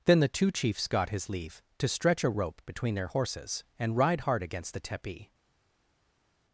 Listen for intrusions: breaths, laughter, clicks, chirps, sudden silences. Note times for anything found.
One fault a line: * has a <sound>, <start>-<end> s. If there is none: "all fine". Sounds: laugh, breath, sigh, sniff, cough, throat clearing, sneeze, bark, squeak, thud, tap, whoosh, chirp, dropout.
all fine